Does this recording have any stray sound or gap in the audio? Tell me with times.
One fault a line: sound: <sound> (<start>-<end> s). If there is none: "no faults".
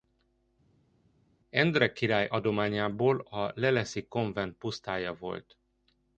no faults